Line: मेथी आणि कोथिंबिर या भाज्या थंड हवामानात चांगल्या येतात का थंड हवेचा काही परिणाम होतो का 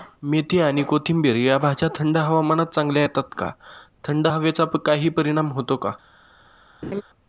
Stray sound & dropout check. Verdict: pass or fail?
fail